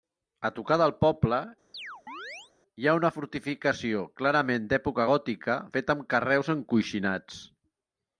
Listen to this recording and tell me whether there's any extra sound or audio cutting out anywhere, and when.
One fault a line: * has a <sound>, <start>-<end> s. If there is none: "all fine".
* has a chirp, 1.7-2.5 s